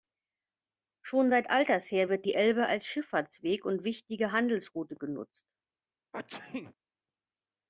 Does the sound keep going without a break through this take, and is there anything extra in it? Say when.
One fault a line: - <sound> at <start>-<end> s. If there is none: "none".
- sneeze at 6.1-6.7 s